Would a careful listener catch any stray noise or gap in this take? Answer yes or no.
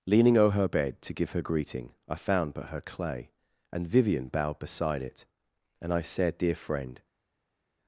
no